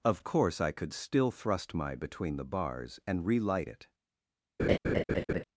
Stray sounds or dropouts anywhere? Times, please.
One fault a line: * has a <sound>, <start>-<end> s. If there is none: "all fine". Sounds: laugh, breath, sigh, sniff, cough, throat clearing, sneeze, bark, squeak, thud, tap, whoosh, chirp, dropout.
* has a laugh, 4.6-5.4 s